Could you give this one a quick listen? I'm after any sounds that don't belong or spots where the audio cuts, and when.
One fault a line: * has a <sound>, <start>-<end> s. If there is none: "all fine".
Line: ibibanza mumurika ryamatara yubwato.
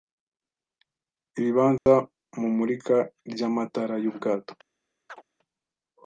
* has a dropout, 1.8-1.9 s
* has a chirp, 5.1-5.2 s